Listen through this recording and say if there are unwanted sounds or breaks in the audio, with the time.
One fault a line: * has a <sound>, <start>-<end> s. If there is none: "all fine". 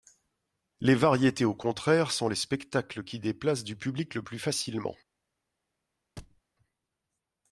* has a thud, 6.2-6.4 s